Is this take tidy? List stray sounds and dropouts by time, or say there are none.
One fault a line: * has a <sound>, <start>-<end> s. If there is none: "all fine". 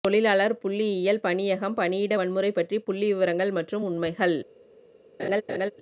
* has a laugh, 5.2-5.7 s